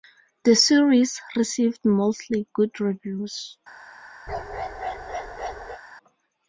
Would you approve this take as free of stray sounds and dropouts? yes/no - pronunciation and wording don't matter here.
no